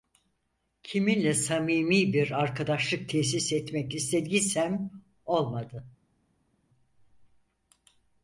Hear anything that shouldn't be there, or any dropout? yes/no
no